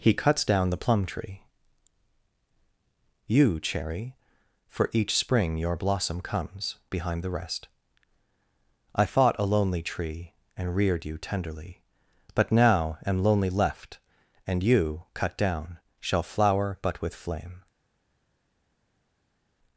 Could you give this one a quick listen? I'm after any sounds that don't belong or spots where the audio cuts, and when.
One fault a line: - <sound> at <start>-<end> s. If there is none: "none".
none